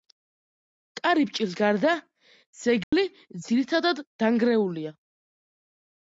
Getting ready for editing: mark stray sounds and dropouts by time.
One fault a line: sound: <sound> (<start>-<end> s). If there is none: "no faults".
sound: dropout (2.8-2.9 s)